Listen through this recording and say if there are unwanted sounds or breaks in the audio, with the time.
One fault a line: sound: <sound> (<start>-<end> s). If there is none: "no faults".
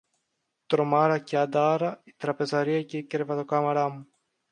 no faults